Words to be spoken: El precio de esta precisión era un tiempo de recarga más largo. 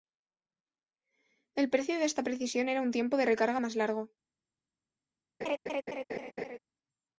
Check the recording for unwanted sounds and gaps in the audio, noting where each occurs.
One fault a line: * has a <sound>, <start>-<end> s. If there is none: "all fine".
* has a laugh, 5.4-6.6 s